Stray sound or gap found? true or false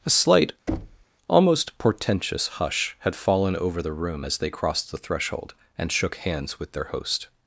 true